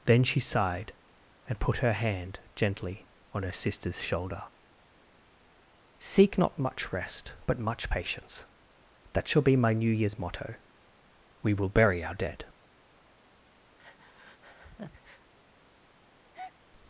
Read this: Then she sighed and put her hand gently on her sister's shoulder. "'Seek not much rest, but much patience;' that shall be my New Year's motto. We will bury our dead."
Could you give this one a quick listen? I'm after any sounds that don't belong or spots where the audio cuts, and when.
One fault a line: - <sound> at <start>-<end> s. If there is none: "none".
- breath at 13.8-15.3 s
- breath at 16.3-16.6 s